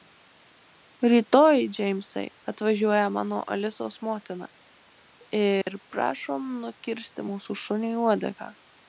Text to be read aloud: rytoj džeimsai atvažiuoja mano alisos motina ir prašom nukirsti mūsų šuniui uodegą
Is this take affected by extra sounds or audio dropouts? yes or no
yes